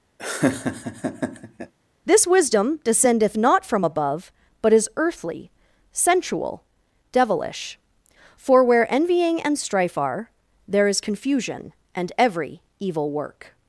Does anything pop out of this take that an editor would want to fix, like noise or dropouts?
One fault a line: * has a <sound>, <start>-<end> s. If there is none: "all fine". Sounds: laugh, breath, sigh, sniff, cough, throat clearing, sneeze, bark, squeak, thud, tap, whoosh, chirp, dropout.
* has a laugh, 0.2-1.7 s